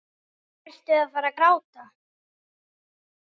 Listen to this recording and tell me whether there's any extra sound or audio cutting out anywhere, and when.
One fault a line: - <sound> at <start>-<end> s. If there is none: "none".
none